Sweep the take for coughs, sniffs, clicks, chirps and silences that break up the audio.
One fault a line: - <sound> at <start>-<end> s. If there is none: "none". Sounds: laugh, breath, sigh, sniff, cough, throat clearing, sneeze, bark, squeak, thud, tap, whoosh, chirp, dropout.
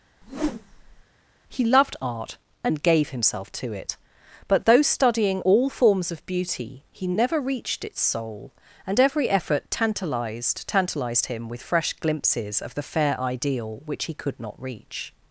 - whoosh at 0.2-1.0 s